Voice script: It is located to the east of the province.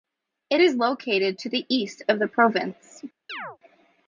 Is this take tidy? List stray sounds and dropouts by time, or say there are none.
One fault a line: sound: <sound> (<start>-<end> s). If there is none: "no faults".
sound: chirp (3.3-3.6 s)